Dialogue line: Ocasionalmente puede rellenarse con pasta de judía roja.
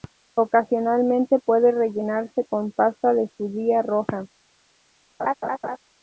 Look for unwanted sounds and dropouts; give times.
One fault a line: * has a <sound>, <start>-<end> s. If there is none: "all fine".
* has a laugh, 5.2-5.8 s